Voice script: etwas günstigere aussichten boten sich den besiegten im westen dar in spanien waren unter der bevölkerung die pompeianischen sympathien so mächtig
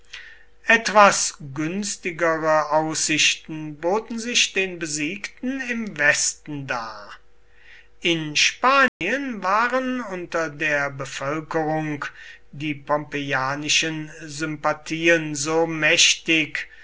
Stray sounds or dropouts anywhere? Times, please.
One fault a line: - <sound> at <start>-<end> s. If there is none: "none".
- dropout at 8.9-9.0 s